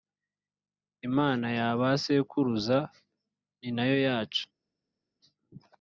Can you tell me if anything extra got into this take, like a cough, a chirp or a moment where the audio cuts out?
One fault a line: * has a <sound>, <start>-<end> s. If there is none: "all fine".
all fine